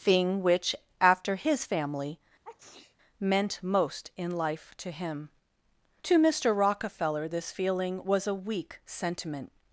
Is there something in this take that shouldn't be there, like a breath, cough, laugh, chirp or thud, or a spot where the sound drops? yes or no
yes